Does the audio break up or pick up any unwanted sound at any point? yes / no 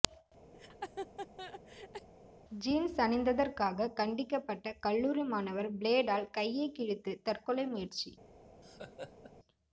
yes